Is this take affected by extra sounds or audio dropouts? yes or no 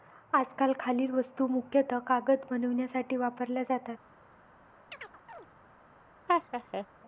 yes